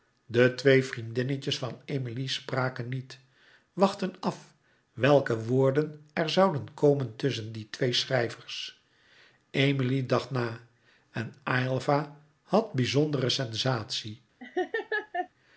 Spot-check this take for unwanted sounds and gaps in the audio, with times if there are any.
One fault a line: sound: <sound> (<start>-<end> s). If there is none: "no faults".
sound: laugh (14.4-15.3 s)